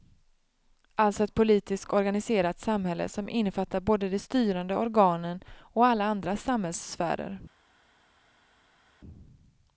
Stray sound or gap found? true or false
false